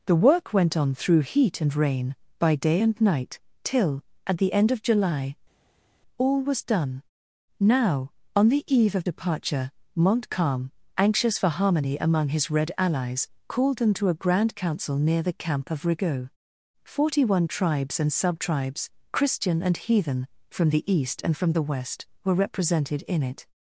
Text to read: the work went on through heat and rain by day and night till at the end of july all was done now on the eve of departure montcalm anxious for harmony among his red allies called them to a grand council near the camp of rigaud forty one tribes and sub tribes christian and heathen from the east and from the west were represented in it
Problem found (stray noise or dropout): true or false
false